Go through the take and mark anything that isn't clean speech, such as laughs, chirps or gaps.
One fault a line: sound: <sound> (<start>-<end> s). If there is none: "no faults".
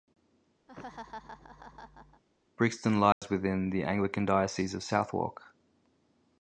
sound: laugh (0.7-2.2 s)
sound: dropout (3.1-3.2 s)